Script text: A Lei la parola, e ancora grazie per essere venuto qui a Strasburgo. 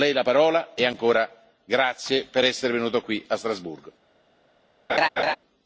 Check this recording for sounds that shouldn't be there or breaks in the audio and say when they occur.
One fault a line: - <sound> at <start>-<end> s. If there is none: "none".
- laugh at 4.9-5.4 s